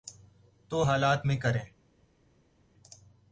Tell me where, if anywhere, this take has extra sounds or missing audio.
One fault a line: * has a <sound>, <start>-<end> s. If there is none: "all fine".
all fine